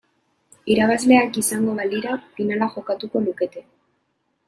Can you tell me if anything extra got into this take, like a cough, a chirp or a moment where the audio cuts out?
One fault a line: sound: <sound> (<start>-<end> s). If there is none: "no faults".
no faults